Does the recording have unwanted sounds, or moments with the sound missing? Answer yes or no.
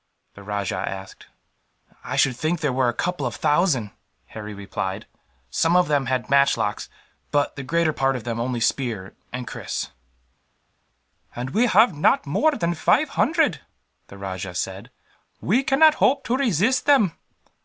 no